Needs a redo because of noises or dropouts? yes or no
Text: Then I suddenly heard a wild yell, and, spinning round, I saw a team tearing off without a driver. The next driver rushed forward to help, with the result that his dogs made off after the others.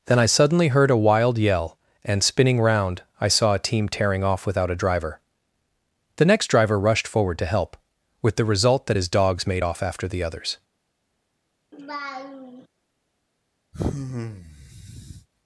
yes